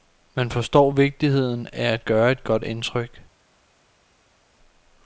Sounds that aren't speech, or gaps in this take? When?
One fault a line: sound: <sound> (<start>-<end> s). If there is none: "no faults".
no faults